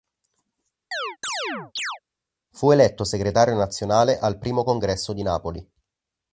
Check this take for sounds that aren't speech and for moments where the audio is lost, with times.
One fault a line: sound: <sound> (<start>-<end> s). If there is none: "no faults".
sound: chirp (0.9-2.0 s)